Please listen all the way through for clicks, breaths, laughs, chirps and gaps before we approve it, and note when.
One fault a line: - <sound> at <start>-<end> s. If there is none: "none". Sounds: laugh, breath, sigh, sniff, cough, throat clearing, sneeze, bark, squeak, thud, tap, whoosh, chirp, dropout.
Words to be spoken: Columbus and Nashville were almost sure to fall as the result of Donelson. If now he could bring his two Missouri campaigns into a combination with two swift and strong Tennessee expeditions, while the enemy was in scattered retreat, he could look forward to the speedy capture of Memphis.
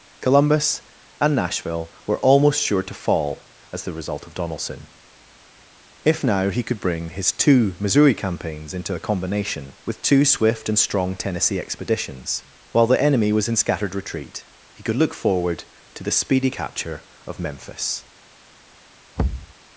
- thud at 19.2-19.5 s